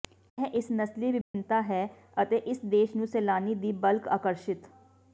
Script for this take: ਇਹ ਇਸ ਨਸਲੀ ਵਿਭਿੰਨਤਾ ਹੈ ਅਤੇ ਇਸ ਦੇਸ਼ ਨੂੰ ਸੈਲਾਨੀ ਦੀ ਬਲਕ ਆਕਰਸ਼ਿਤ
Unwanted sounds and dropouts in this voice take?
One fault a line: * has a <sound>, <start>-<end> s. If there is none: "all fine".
* has a dropout, 1.2-1.3 s